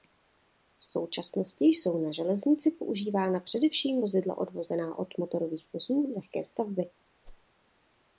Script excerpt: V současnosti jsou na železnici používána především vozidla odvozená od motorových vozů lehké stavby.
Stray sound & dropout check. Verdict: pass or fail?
fail